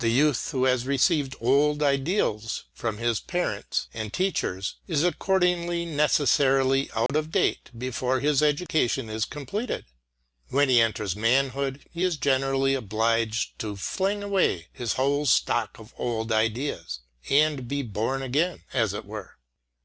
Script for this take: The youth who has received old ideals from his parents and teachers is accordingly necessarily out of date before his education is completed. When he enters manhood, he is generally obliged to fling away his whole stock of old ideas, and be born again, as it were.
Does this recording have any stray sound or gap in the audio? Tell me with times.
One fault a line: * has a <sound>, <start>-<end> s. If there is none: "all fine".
* has a dropout, 7.1-7.1 s